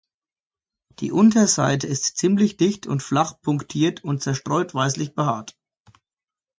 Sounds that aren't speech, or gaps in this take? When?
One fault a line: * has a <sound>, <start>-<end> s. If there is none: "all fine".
all fine